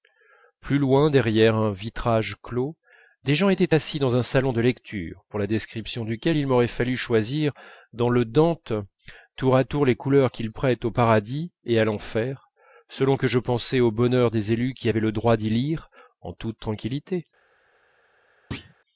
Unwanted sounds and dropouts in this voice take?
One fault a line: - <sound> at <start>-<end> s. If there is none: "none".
- thud at 18.5-18.7 s